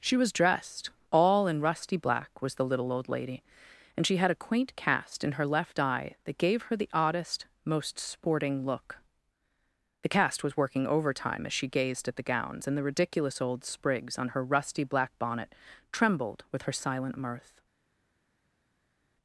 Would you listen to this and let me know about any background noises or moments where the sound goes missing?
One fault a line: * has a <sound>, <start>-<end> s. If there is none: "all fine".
all fine